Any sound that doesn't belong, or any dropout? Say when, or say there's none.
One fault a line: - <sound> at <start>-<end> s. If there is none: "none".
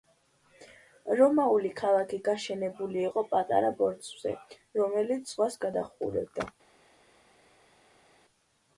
none